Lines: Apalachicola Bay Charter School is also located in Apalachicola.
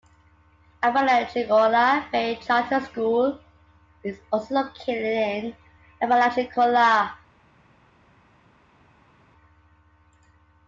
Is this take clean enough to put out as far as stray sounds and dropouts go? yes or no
yes